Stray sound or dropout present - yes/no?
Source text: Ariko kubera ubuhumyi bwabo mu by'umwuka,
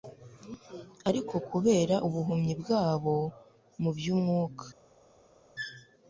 no